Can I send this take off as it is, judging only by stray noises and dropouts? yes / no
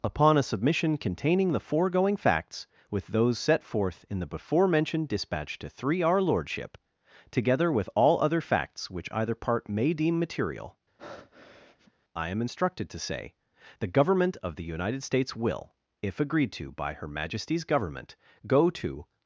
no